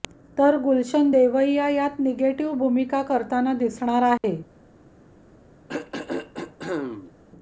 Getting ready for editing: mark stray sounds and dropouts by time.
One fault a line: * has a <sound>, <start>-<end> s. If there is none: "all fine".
* has a dropout, 4.2-4.2 s
* has a throat clearing, 5.7-7.1 s